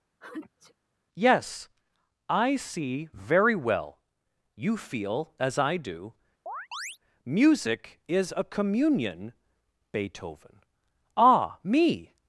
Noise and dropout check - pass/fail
fail